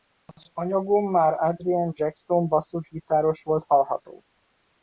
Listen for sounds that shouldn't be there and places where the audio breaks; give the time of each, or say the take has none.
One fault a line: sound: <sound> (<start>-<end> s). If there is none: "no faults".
no faults